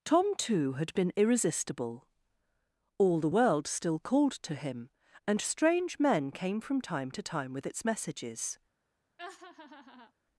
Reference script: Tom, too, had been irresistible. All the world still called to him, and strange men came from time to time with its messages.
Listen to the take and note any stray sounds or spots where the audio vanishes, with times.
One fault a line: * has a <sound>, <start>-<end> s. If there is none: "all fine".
* has a laugh, 9.2-10.1 s